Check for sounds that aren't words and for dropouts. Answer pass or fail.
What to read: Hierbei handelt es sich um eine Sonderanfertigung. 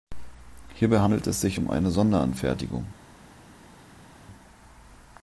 pass